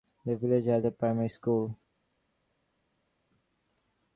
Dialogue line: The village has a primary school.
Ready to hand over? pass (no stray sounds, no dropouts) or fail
pass